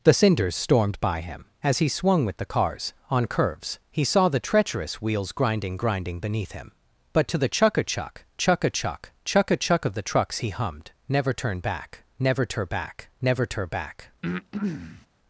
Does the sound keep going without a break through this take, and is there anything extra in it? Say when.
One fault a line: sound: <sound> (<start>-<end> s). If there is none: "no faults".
sound: breath (14.2-15.1 s)